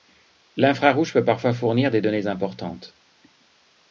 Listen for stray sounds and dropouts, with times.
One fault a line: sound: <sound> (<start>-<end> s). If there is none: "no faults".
no faults